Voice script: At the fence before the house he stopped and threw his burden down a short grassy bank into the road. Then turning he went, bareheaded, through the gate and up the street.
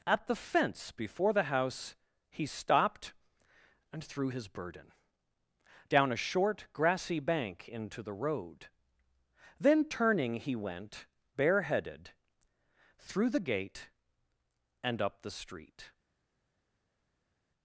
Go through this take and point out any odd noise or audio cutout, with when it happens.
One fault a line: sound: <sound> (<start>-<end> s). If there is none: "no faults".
no faults